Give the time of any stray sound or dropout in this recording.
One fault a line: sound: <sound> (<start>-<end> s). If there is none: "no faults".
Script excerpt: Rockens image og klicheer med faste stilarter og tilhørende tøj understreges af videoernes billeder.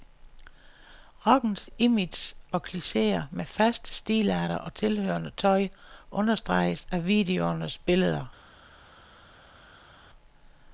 no faults